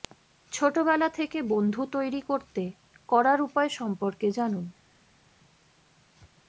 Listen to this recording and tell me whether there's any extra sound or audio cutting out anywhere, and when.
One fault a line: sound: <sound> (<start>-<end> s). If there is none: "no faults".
no faults